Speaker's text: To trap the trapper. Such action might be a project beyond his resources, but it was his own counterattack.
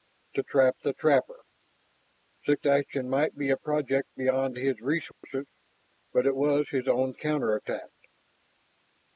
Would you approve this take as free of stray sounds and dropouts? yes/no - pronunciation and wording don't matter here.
no